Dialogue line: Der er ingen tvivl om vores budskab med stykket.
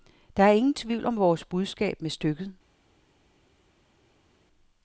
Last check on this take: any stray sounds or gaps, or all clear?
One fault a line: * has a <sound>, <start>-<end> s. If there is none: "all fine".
all fine